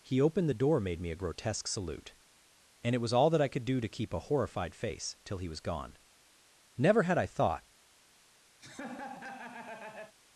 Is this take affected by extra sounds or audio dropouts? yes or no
yes